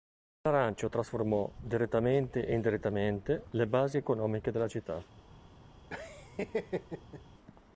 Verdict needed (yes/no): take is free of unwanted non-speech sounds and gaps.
no